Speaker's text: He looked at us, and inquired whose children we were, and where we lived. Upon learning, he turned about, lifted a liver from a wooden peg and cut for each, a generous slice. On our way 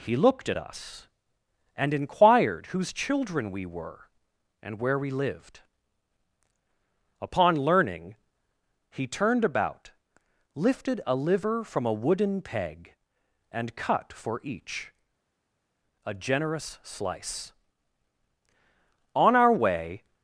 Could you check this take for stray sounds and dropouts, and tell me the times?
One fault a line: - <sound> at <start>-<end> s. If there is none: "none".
none